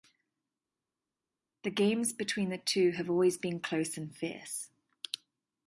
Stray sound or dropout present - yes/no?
no